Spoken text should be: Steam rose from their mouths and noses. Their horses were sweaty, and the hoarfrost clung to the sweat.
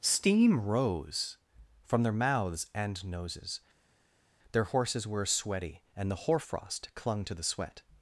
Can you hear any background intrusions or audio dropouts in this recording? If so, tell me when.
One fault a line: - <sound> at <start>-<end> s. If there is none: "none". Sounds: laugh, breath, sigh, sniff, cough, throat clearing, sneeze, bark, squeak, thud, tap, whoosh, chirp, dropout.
none